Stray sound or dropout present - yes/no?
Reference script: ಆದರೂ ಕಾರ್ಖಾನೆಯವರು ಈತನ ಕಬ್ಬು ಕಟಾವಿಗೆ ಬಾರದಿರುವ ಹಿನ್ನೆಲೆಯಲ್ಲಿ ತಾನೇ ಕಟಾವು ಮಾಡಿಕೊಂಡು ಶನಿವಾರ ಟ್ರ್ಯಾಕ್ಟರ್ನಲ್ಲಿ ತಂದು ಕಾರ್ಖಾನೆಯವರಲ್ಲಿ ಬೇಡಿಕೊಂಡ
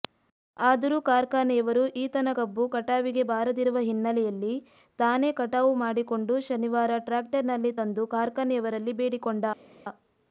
no